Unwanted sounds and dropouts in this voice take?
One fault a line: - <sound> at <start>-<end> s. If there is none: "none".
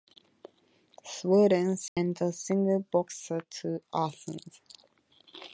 - dropout at 1.9-2.0 s